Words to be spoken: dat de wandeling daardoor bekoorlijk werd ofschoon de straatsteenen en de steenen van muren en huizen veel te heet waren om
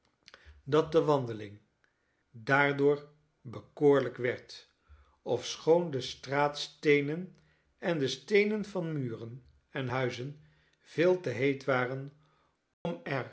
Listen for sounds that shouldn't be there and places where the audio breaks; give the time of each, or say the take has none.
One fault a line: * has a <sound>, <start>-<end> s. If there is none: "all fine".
* has a dropout, 12.7-12.9 s